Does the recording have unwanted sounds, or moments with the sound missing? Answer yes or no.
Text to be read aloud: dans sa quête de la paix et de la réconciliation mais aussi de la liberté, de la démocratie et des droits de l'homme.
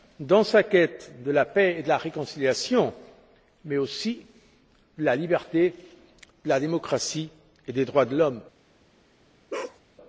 yes